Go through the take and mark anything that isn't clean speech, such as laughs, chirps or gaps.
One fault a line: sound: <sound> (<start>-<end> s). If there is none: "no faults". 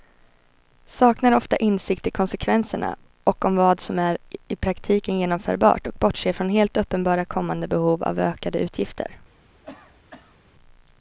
sound: cough (9.6-10.4 s)